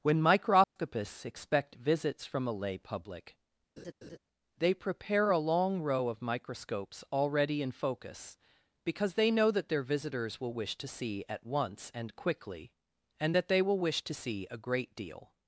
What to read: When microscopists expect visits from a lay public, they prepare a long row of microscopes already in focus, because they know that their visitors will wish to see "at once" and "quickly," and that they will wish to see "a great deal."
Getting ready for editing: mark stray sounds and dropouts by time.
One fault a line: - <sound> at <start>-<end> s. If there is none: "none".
- dropout at 0.6-0.8 s
- laugh at 3.8-4.2 s